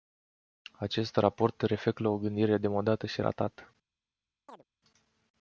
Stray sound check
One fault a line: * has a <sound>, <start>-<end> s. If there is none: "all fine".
* has a chirp, 4.5-4.6 s